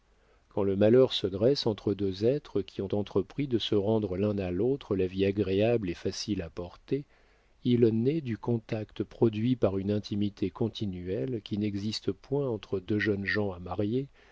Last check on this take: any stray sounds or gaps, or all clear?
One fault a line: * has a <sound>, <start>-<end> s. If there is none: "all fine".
all fine